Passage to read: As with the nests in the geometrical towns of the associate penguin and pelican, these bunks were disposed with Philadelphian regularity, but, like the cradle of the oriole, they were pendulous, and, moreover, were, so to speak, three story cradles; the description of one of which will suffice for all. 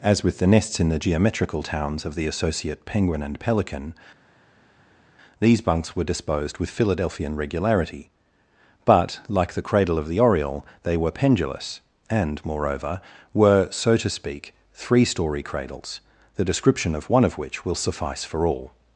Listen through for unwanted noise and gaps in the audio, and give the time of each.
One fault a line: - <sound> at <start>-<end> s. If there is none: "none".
none